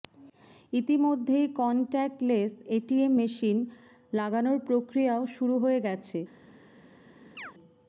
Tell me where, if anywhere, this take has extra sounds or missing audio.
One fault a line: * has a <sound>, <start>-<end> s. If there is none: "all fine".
* has a chirp, 7.4-7.5 s